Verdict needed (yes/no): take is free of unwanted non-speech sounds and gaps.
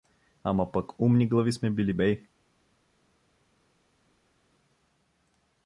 yes